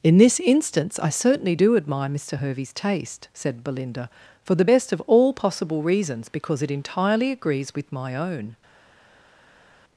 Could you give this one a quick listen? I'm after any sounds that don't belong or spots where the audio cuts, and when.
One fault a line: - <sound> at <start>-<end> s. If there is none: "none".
none